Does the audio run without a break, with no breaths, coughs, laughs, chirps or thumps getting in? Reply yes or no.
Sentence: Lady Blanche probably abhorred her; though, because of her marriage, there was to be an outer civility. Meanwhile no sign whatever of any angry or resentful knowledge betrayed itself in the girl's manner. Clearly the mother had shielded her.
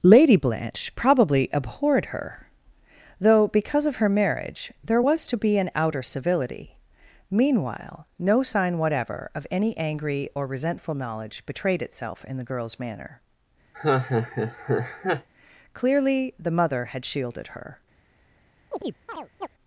no